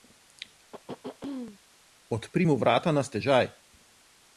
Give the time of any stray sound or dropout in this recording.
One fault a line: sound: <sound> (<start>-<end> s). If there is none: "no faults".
sound: throat clearing (0.7-1.6 s)